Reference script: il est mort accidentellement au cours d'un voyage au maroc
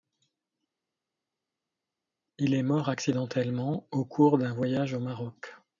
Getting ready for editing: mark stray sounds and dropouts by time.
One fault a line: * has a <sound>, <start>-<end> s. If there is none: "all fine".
all fine